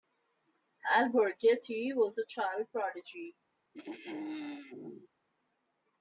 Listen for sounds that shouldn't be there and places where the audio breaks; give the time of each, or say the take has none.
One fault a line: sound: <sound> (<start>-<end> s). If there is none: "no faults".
sound: throat clearing (3.7-5.1 s)